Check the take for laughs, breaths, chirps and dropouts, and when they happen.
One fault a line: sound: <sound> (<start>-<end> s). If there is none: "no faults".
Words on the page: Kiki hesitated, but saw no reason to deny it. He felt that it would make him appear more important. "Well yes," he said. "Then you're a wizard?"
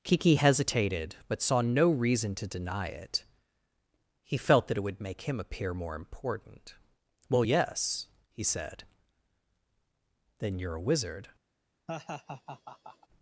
sound: laugh (11.9-13.1 s)